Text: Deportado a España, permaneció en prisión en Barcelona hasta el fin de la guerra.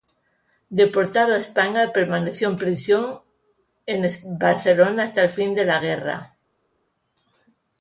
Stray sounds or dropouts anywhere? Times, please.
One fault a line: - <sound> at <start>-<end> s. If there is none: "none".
none